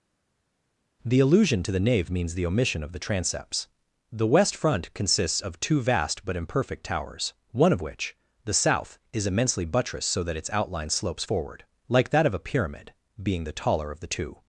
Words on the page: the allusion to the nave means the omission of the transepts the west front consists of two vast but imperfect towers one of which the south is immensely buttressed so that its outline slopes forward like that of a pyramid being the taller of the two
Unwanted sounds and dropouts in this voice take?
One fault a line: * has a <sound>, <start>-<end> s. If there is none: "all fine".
all fine